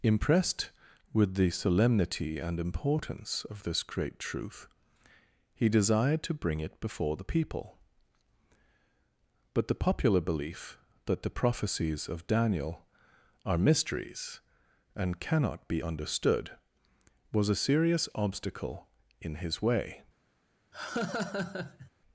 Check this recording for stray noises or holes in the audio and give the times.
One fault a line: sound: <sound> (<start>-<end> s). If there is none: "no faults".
sound: laugh (20.7-21.9 s)